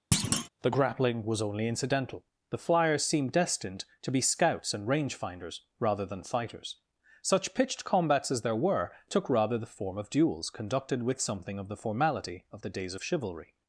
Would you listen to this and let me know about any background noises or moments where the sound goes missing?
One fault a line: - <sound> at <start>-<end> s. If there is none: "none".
- thud at 0.1-0.5 s